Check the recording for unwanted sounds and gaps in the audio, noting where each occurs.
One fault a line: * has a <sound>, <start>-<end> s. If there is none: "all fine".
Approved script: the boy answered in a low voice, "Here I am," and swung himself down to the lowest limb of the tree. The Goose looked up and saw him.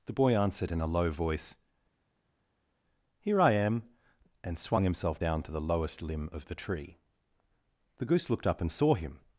all fine